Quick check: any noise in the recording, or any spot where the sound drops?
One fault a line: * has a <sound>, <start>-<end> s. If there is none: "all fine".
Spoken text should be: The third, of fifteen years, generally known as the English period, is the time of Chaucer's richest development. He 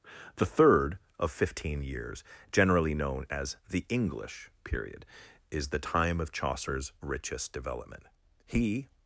all fine